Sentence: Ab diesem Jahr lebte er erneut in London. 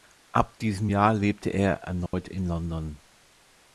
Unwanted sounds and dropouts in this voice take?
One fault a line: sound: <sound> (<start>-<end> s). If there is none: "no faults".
sound: dropout (2.1-2.1 s)